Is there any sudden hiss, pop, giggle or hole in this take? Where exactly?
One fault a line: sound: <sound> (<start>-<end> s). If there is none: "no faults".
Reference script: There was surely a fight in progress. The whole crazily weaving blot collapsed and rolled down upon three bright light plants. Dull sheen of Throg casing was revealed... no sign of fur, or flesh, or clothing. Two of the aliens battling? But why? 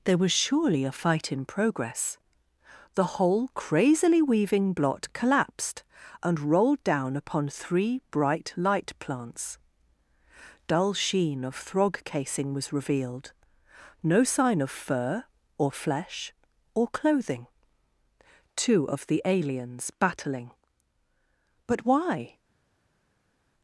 no faults